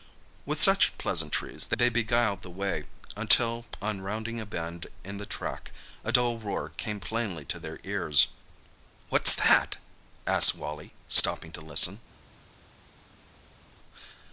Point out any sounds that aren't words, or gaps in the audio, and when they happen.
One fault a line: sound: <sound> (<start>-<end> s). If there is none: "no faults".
no faults